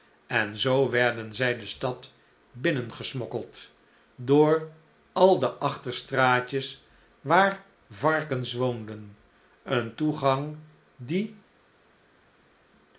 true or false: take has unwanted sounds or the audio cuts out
false